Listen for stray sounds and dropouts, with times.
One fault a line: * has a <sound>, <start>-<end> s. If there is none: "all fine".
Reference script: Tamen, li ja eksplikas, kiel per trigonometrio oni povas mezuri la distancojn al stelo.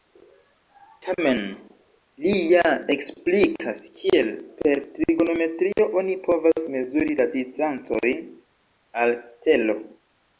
* has a dropout, 5.7-5.8 s